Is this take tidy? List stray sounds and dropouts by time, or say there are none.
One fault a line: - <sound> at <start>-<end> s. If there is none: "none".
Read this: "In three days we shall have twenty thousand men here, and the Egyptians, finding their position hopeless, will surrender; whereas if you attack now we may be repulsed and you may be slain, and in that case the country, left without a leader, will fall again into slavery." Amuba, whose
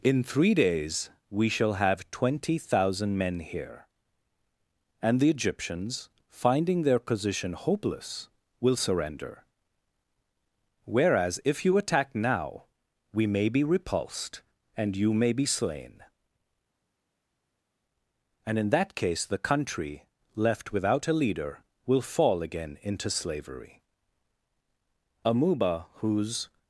none